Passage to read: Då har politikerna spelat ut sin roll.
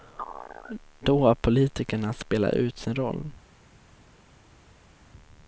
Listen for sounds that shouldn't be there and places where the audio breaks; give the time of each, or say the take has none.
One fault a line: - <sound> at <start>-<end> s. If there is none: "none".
none